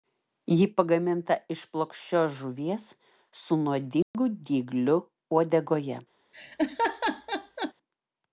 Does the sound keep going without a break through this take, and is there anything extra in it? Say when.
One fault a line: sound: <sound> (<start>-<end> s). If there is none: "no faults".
sound: dropout (4.0-4.1 s)
sound: laugh (6.3-7.7 s)